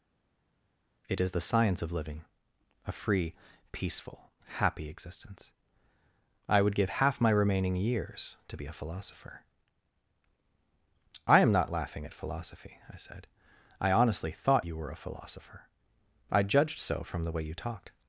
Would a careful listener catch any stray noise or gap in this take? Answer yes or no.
no